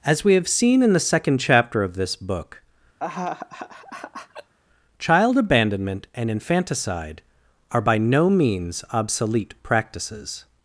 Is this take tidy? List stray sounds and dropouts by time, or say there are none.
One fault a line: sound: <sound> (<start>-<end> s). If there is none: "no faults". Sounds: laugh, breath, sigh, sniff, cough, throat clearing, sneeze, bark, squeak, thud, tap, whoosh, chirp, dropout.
sound: laugh (3.0-4.5 s)